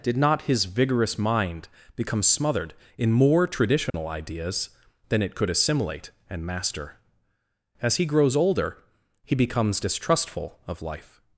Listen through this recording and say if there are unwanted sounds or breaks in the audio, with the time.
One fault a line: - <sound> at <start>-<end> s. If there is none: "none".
- dropout at 3.9-3.9 s